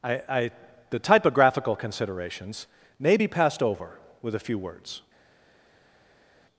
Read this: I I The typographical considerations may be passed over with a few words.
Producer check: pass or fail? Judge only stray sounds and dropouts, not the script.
pass